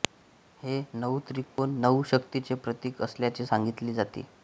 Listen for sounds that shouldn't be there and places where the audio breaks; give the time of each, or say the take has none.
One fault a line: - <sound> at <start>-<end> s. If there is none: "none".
- dropout at 1.4-1.6 s